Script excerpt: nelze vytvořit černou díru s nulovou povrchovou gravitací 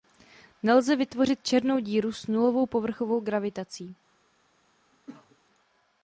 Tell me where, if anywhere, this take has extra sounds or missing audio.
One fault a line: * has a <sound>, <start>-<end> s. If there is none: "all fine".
* has a cough, 4.9-5.4 s